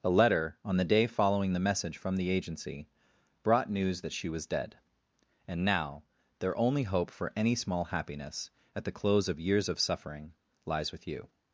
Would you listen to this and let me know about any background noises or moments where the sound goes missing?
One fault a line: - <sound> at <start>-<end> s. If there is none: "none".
none